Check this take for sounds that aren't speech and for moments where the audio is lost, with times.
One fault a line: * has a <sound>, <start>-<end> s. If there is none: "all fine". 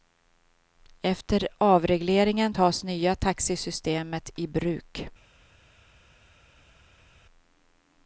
all fine